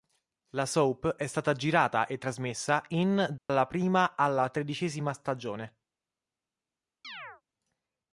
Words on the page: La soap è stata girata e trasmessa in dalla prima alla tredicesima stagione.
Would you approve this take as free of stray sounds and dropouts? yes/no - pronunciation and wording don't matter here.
no